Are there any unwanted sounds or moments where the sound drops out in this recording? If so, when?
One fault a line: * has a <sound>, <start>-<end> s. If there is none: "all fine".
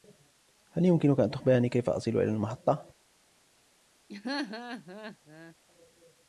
* has a laugh, 4.1-5.5 s